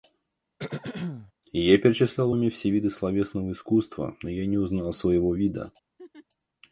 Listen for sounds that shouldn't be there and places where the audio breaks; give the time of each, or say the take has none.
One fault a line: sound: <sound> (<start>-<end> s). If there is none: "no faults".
sound: throat clearing (0.6-1.3 s)
sound: laugh (6.0-6.3 s)